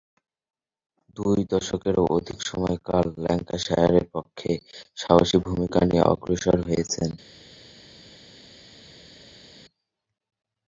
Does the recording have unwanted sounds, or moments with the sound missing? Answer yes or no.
no